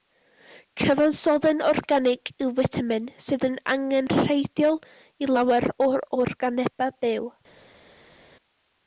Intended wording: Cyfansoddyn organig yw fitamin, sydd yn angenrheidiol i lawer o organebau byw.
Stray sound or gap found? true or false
false